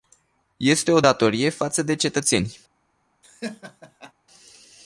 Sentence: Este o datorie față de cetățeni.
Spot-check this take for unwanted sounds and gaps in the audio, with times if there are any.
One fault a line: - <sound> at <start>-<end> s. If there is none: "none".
- laugh at 3.2-4.1 s